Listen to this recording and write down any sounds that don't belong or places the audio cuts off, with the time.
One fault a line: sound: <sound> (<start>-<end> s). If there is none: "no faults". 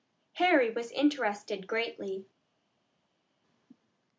no faults